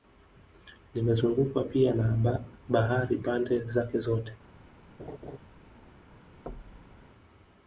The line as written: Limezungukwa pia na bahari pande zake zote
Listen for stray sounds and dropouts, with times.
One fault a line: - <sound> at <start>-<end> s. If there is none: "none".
- laugh at 5.0-5.4 s
- thud at 6.5-7.0 s